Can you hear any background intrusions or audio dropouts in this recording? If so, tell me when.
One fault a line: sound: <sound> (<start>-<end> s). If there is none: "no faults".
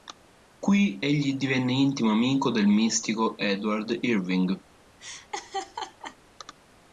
sound: laugh (5.0-6.2 s)